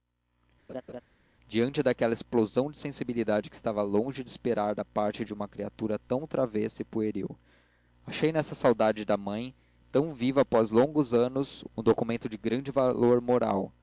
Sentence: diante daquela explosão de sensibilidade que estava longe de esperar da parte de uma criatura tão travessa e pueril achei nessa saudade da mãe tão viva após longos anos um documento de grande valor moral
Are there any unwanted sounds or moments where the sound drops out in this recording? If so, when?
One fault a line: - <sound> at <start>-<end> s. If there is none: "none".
- laugh at 0.7-1.0 s